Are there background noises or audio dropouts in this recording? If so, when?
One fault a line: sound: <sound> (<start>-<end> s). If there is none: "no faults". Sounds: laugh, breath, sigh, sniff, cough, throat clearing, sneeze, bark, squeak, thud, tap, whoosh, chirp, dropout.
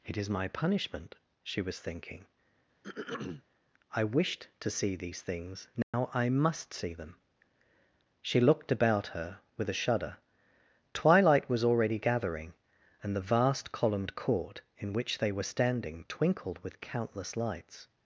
sound: throat clearing (2.8-3.4 s)
sound: dropout (5.8-5.9 s)